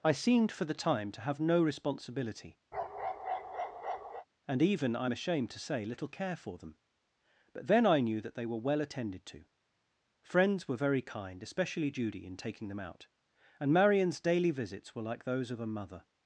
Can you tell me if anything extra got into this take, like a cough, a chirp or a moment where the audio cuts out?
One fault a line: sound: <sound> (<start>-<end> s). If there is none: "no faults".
sound: bark (2.7-4.3 s)